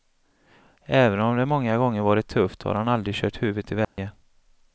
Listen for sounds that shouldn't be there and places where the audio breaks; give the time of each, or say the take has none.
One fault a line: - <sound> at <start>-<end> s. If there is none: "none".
- dropout at 3.8-4.0 s